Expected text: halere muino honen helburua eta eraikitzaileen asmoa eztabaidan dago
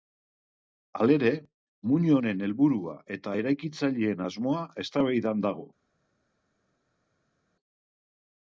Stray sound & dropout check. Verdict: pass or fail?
pass